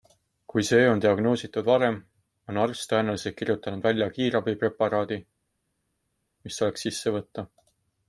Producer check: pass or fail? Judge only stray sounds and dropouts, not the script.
pass